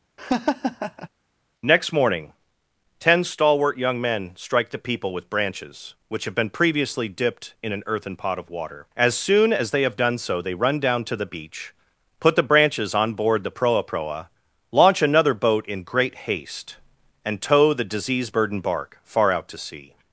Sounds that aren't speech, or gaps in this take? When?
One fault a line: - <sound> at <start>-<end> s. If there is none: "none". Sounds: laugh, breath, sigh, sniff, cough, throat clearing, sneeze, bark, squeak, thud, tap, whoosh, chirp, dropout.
- laugh at 0.2-1.1 s